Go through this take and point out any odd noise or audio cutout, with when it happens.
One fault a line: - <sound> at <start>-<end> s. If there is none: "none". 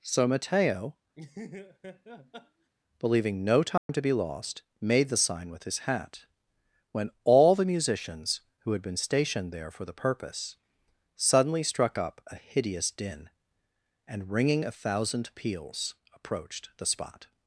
- laugh at 1.1-2.7 s
- dropout at 3.8-3.9 s